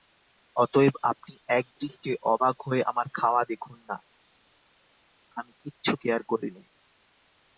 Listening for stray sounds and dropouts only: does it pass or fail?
pass